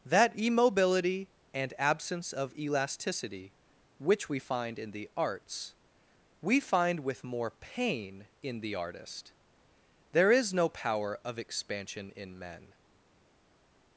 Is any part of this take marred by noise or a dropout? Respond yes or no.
no